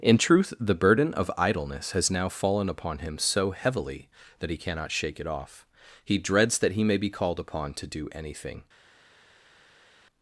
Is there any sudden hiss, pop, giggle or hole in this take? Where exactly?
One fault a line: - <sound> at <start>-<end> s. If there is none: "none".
none